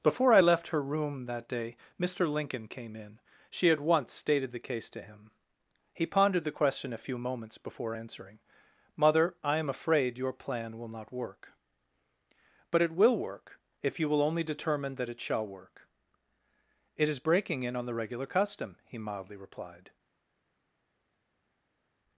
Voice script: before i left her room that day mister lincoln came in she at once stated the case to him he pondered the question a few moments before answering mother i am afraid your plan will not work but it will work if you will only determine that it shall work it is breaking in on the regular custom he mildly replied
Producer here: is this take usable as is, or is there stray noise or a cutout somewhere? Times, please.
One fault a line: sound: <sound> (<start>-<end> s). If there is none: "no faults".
no faults